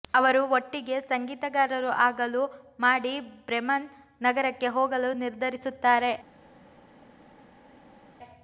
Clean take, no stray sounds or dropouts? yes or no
yes